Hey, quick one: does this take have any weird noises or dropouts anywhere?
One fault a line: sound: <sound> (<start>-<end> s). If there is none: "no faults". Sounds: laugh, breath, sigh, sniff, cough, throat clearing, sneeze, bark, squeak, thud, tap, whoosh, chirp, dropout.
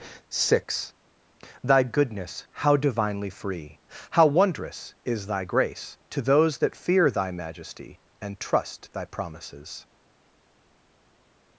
no faults